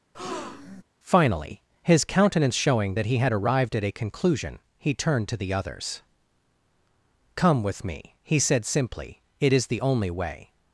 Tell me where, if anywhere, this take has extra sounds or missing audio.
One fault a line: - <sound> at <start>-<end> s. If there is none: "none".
- breath at 0.1-0.8 s